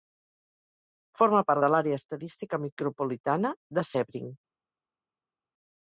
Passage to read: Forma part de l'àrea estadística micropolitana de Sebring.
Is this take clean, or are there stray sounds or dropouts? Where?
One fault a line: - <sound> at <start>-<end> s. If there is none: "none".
none